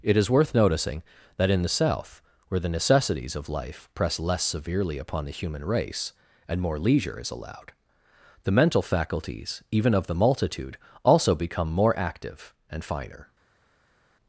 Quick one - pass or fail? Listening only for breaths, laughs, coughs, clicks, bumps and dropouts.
pass